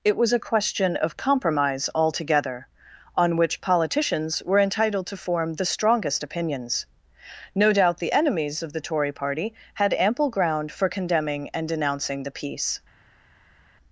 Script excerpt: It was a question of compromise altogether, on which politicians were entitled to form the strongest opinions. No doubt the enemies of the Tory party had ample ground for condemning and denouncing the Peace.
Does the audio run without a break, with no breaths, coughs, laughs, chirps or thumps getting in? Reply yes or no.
yes